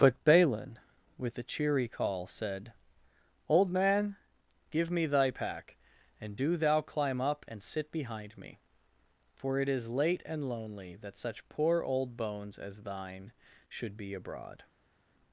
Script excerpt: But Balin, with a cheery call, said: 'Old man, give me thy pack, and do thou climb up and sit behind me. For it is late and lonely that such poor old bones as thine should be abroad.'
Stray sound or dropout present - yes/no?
no